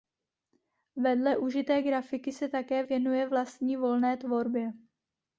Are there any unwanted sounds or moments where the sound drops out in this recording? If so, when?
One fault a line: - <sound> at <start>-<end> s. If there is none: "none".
none